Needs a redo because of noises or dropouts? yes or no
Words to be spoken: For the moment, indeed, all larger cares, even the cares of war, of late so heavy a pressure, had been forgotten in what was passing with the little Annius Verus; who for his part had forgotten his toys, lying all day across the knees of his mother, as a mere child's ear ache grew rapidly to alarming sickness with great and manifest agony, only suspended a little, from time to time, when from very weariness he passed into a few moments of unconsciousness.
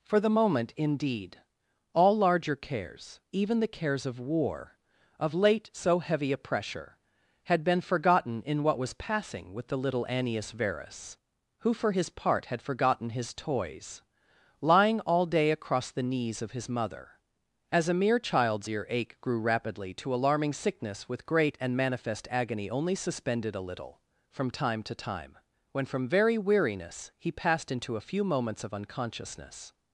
no